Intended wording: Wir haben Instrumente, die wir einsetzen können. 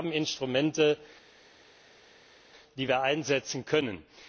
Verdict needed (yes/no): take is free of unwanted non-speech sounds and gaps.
yes